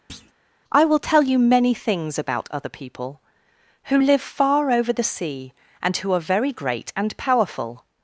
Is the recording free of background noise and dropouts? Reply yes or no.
no